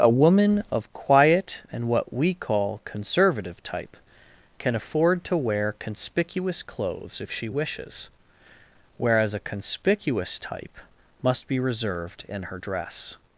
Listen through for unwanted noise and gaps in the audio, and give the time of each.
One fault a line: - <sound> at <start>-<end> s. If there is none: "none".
none